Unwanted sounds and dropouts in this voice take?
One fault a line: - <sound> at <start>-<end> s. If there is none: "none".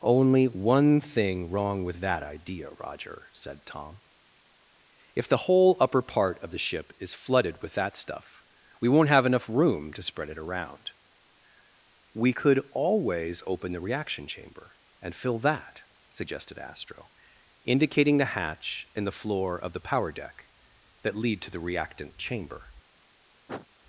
- sniff at 23.5-23.7 s